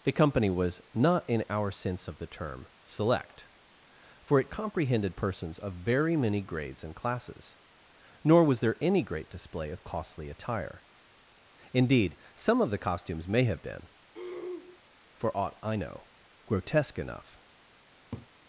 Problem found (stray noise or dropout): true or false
true